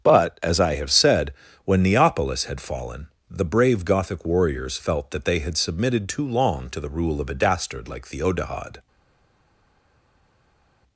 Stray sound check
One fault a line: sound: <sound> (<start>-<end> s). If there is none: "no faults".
no faults